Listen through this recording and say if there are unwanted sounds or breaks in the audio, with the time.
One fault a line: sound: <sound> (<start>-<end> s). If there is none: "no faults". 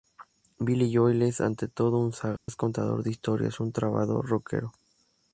sound: dropout (2.4-2.5 s)